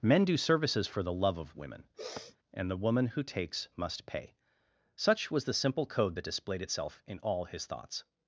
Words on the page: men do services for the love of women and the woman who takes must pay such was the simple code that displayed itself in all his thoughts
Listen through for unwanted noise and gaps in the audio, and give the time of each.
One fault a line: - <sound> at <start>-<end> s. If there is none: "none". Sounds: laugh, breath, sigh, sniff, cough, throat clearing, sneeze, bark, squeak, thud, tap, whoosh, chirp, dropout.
- sniff at 2.0-2.4 s